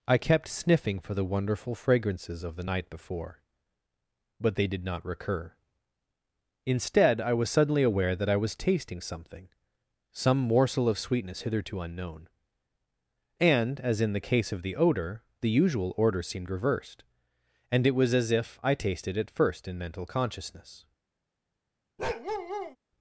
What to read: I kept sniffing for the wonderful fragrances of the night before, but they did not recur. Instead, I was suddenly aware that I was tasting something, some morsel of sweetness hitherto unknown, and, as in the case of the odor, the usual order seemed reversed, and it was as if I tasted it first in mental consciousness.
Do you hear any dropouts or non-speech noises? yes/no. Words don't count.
yes